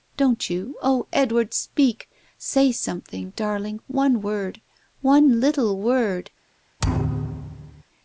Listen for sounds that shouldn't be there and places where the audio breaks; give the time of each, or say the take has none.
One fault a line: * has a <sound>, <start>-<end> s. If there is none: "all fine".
* has a thud, 6.8-7.8 s